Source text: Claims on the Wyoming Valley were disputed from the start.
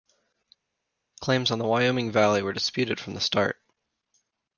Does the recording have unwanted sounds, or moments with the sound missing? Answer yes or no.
no